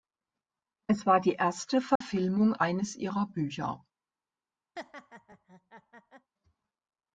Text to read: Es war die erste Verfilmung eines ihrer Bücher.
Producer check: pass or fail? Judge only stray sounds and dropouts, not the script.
fail